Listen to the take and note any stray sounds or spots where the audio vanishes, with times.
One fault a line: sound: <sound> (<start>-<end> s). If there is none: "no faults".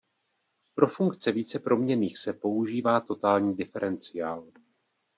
no faults